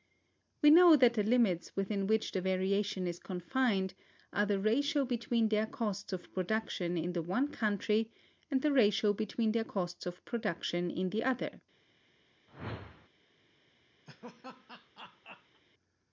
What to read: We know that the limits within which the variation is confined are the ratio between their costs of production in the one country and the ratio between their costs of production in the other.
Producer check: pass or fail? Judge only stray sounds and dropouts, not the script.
fail